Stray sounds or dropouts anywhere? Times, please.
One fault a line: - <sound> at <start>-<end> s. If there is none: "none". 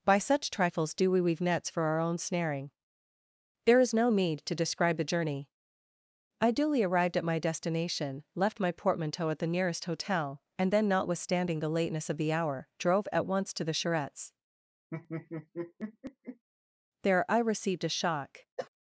- laugh at 14.9-16.4 s
- cough at 18.6-18.7 s